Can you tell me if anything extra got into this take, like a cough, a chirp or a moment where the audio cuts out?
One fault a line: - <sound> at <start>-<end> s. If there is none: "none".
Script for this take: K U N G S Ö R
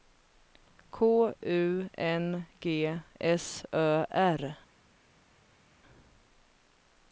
none